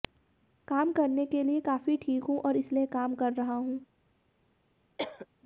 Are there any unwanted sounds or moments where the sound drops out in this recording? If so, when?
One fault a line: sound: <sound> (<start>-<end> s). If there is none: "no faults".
sound: cough (5.0-5.3 s)